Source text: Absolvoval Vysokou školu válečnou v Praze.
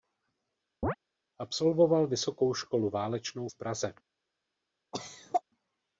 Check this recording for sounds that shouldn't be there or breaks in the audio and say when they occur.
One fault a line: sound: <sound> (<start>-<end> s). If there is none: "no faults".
sound: chirp (0.8-1.0 s)
sound: cough (4.9-5.4 s)